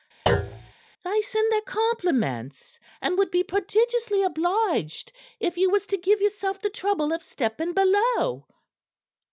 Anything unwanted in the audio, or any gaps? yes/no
yes